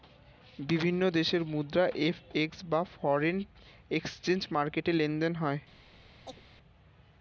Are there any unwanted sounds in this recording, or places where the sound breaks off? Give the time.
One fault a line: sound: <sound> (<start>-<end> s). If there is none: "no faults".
sound: chirp (6.2-6.4 s)